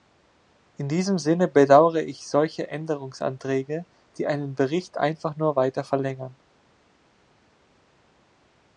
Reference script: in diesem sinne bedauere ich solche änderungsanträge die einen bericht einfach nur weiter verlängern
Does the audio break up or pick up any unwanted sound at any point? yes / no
no